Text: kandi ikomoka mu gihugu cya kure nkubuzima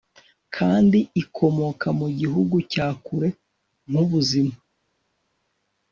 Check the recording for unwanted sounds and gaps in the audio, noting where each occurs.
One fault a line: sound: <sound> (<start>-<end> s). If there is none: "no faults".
no faults